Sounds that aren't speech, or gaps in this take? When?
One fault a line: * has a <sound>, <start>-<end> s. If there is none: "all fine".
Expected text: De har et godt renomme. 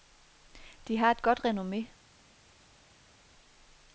all fine